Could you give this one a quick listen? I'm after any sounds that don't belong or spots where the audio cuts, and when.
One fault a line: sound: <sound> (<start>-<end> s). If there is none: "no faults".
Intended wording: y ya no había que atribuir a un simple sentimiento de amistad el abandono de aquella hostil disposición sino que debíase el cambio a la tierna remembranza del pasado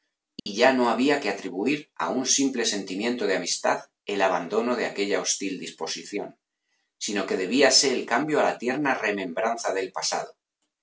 sound: dropout (0.4-0.5 s)